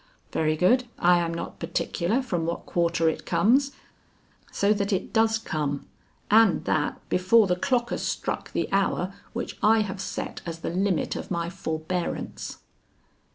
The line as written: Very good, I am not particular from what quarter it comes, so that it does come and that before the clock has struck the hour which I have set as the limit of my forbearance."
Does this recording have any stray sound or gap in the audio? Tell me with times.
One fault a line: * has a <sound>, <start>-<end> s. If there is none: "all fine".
all fine